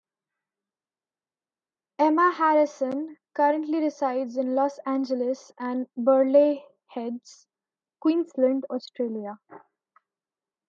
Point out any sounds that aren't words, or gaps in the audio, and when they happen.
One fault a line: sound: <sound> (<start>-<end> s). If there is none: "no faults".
no faults